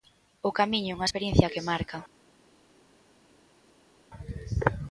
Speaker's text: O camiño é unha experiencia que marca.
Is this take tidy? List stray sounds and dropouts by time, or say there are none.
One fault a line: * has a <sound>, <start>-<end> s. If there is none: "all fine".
all fine